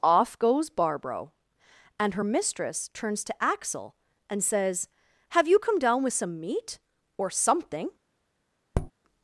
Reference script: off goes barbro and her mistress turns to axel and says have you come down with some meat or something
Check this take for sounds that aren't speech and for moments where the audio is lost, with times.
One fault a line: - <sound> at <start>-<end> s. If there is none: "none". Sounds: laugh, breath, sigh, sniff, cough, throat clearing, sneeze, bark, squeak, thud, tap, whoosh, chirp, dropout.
- tap at 8.7-8.9 s